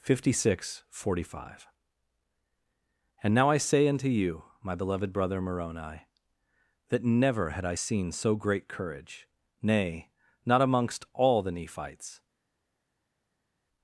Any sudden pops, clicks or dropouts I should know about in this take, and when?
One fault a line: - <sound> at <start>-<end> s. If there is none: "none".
none